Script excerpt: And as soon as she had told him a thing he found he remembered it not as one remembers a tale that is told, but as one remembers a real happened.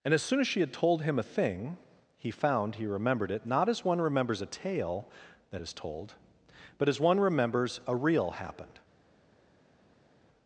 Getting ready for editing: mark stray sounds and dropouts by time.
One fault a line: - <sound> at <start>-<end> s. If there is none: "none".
none